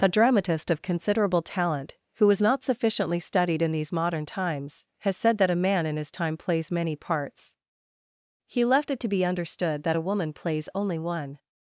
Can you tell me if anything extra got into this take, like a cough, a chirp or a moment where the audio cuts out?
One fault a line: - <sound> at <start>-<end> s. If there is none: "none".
none